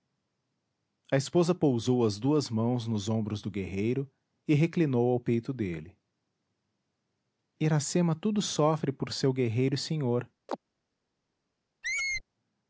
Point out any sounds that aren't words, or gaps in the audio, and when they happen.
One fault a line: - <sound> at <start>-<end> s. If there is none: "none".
- chirp at 10.5-10.6 s
- squeak at 11.8-12.2 s